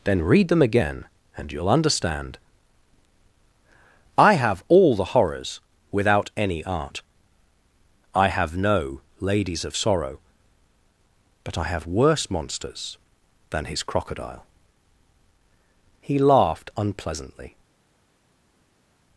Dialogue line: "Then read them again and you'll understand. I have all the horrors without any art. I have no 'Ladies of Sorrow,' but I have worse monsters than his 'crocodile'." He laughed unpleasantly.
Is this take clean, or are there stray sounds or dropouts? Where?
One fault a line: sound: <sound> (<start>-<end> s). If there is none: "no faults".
no faults